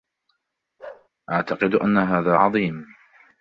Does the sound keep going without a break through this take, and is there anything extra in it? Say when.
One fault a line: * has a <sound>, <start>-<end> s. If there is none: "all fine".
* has a bark, 0.8-1.1 s